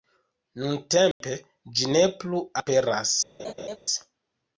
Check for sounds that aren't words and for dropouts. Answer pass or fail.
fail